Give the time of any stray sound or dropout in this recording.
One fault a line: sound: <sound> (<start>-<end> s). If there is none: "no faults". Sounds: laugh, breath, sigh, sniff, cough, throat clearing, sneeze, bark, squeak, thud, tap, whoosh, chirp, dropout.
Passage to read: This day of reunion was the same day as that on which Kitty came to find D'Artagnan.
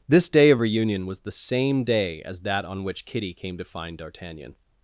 no faults